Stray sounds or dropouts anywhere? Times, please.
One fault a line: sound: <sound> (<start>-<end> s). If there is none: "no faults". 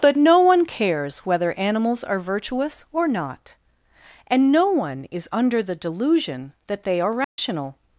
sound: dropout (7.2-7.4 s)